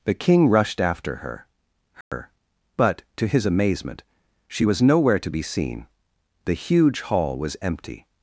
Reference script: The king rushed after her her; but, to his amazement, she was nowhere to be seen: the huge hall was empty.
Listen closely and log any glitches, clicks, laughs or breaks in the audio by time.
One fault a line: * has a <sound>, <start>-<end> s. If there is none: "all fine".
* has a dropout, 2.0-2.1 s